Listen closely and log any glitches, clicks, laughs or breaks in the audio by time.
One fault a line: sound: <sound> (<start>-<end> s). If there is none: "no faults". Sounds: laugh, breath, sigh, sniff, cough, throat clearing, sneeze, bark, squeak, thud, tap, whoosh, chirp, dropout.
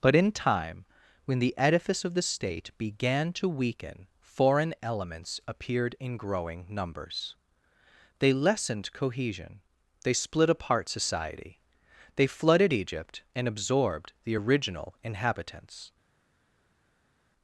no faults